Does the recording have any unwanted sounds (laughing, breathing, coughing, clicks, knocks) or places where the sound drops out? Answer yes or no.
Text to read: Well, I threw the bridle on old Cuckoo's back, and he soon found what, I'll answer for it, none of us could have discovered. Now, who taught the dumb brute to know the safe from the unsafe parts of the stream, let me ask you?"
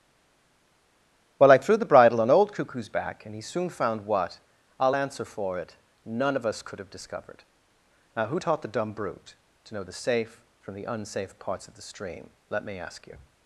no